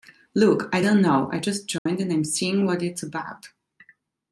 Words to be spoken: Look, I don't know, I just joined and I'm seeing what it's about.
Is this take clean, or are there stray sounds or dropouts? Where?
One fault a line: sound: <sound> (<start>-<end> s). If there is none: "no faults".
sound: dropout (1.8-1.9 s)